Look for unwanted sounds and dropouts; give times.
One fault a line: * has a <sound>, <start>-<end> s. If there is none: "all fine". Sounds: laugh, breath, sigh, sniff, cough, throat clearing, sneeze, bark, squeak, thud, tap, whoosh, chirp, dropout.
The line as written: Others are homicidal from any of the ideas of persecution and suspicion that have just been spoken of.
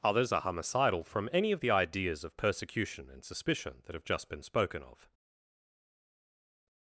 all fine